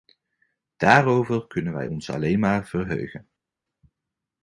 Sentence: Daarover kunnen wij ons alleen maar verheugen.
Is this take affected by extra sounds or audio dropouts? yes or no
no